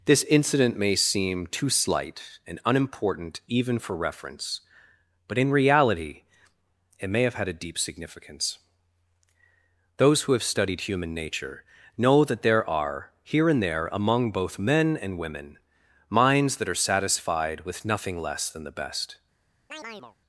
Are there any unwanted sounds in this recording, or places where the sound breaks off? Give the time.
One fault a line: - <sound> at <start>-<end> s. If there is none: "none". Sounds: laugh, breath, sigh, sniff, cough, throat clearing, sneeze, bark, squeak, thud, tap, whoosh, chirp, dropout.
- chirp at 19.7-20.2 s